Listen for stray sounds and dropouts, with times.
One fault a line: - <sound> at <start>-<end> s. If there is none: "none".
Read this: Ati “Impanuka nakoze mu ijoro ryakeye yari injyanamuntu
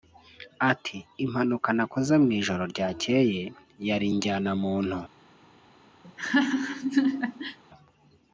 - laugh at 6.0-7.6 s